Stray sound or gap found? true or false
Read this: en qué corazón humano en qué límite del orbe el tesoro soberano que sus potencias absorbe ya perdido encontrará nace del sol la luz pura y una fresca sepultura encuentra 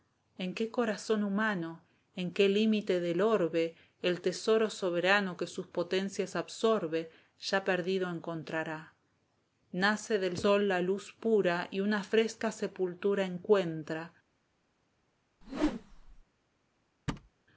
true